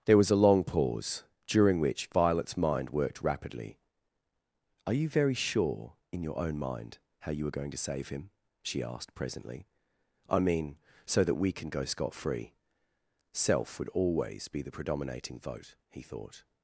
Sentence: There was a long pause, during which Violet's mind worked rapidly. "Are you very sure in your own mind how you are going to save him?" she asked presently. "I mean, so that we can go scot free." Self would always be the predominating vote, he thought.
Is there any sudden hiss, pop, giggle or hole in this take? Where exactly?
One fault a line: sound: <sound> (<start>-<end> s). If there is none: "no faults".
no faults